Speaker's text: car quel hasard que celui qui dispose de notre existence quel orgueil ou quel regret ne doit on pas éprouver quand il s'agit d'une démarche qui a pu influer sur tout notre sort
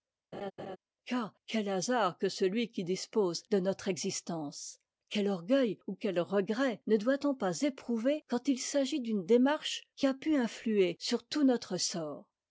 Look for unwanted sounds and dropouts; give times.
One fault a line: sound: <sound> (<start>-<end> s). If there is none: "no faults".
sound: laugh (0.3-0.8 s)